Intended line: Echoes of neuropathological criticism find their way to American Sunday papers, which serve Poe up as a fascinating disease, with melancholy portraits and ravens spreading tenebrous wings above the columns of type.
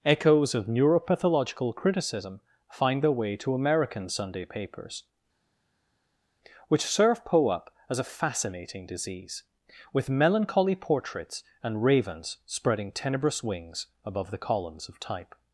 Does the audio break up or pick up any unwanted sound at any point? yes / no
no